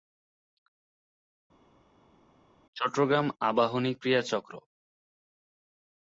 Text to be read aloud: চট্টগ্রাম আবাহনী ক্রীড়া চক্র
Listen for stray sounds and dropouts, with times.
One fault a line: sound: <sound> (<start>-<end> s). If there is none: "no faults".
no faults